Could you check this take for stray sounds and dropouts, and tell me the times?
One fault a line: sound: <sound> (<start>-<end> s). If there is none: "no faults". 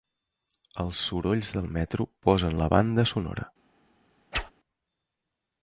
sound: whoosh (4.3-4.5 s)